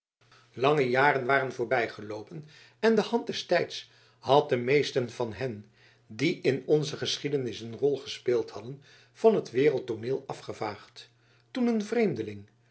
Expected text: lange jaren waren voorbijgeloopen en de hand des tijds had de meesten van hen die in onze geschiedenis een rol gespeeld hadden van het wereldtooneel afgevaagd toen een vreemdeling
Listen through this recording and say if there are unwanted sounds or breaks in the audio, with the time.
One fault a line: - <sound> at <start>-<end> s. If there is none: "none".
none